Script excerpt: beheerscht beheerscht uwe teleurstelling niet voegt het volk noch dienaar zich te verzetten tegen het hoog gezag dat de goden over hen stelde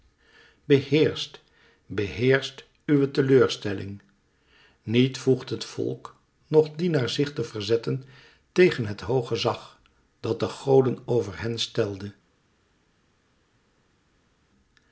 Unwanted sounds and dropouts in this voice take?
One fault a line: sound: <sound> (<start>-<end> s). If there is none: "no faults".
no faults